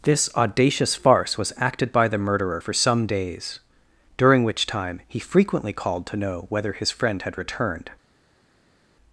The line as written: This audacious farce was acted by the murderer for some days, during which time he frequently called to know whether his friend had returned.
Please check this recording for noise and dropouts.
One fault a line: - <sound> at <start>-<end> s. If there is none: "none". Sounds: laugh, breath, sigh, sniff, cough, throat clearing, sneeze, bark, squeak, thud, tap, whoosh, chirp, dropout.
none